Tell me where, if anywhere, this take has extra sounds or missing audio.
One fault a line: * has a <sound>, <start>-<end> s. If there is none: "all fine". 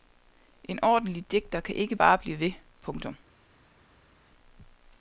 all fine